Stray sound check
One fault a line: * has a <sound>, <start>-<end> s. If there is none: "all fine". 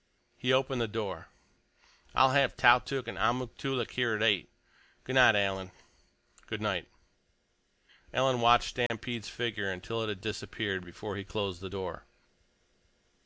* has a dropout, 8.9-8.9 s